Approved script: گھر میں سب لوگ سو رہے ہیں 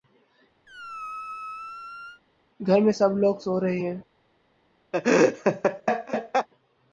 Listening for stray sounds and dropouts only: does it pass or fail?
fail